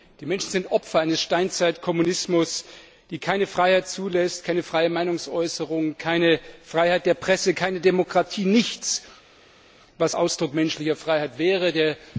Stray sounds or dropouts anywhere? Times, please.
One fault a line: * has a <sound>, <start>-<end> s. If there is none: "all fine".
all fine